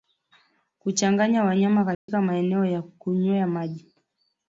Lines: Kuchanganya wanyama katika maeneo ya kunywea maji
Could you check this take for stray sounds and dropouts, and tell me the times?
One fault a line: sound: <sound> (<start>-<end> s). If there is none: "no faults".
sound: dropout (1.9-2.1 s)